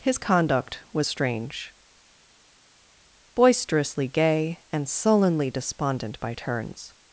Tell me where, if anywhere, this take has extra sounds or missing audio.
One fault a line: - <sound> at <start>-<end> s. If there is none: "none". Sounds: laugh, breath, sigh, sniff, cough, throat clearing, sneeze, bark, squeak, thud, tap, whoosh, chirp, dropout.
none